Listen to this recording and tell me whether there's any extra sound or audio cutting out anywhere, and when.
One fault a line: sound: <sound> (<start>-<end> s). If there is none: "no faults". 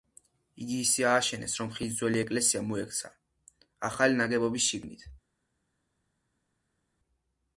no faults